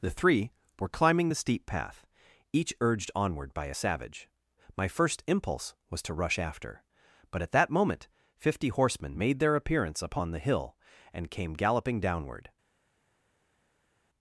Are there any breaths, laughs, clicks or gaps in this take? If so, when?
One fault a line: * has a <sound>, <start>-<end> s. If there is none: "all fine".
all fine